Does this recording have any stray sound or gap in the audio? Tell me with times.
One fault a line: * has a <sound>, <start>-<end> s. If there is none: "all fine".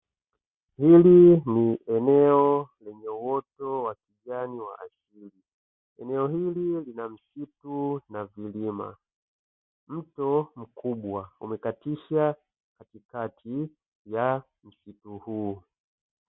all fine